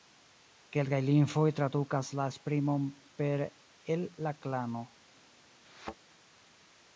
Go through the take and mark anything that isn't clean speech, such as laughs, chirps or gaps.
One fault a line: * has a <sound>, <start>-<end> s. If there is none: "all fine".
* has a thud, 5.6-5.9 s